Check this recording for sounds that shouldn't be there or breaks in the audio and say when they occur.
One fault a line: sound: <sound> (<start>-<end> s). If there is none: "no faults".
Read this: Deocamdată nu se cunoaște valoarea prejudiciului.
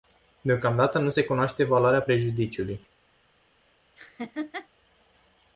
sound: laugh (4.0-4.7 s)